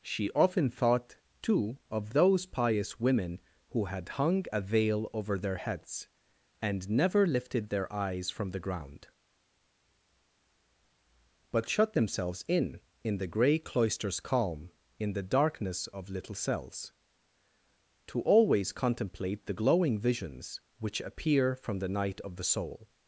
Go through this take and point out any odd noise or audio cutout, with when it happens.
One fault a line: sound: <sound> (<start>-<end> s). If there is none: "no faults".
no faults